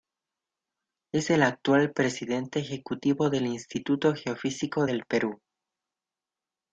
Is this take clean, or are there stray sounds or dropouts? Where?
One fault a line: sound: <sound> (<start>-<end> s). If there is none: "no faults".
no faults